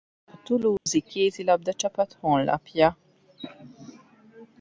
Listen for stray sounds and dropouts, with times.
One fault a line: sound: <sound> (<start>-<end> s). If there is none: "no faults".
sound: dropout (0.8-0.9 s)